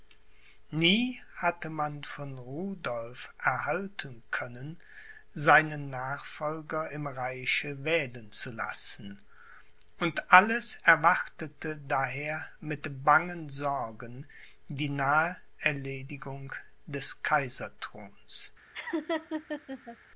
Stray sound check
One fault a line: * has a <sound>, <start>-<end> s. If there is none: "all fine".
* has a laugh, 18.7-20.0 s